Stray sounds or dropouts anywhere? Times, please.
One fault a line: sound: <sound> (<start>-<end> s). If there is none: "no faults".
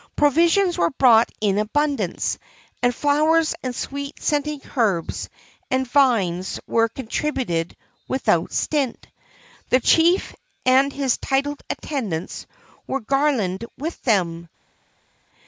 no faults